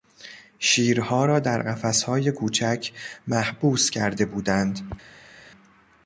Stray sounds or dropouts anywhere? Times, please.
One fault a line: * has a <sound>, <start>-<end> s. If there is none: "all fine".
all fine